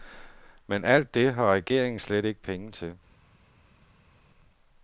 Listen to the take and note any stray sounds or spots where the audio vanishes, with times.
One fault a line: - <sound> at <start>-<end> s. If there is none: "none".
none